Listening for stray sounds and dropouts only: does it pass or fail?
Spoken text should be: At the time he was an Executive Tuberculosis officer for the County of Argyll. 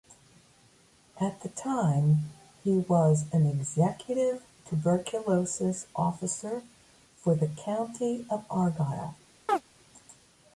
fail